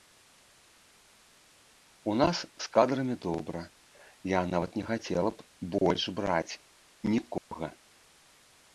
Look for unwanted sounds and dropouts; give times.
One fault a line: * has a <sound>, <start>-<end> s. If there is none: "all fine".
* has a dropout, 7.4-7.5 s